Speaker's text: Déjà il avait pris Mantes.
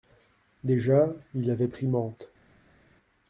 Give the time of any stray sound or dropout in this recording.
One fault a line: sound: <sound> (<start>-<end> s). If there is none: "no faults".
no faults